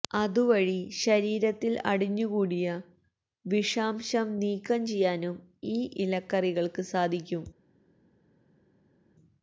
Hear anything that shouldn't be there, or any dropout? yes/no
no